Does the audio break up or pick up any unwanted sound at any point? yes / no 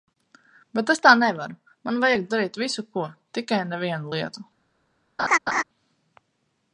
yes